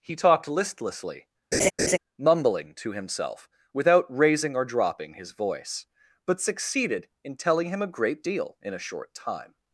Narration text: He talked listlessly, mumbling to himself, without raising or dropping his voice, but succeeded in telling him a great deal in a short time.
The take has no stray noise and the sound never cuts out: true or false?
false